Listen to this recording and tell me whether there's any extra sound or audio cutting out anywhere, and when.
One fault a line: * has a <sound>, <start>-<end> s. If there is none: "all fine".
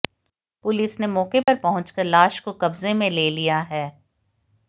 * has a dropout, 1.4-1.5 s